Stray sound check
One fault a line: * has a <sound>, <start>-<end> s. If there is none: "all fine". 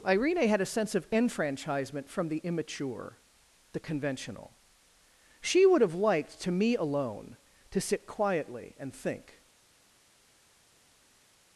all fine